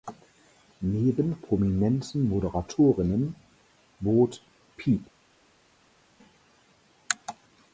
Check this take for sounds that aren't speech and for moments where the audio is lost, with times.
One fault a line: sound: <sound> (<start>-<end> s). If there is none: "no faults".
no faults